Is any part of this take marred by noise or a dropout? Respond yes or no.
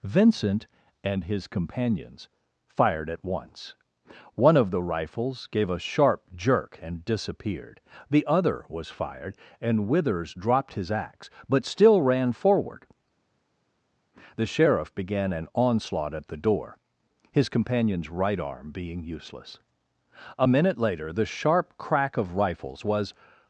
no